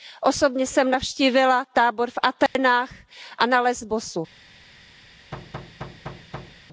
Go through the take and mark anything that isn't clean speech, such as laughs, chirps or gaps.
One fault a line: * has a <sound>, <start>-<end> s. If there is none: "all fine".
* has a dropout, 2.5-2.6 s
* has a thud, 5.3-6.6 s